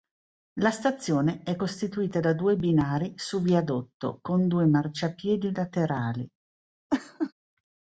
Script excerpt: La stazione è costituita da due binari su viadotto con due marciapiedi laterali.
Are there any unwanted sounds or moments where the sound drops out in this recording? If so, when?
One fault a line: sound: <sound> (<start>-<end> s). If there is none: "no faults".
sound: laugh (6.9-7.3 s)